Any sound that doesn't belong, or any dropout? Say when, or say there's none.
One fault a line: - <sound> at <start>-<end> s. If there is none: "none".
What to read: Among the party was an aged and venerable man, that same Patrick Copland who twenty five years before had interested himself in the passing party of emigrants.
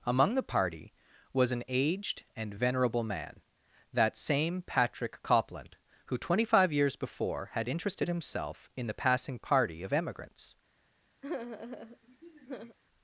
- sigh at 11.2-12.8 s